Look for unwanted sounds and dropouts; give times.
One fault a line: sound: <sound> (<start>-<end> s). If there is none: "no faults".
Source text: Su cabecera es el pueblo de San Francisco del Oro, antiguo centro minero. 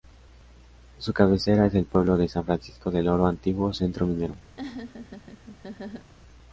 sound: laugh (4.6-6.1 s)